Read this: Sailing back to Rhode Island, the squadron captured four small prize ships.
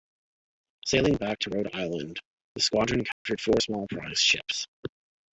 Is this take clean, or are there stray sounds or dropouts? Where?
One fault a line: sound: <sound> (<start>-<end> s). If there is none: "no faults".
sound: dropout (3.1-3.3 s)